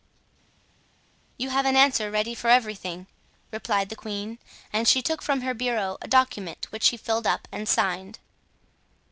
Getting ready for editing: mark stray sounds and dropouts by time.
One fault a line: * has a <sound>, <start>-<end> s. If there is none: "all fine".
all fine